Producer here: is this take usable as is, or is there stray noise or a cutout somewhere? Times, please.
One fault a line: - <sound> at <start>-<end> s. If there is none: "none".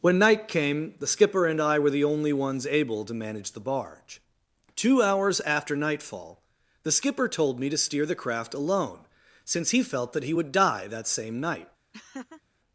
- laugh at 11.9-12.4 s